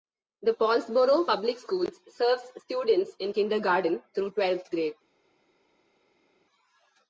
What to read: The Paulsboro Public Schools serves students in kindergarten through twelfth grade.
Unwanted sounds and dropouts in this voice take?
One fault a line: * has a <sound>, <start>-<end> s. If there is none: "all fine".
all fine